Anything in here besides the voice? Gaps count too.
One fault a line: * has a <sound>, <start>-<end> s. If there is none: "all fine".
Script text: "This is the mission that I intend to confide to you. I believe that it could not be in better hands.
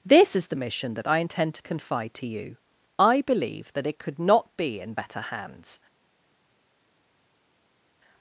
all fine